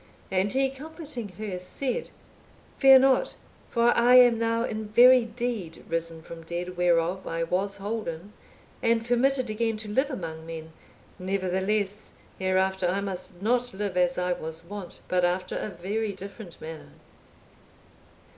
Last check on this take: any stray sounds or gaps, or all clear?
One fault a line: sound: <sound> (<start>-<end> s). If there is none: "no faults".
no faults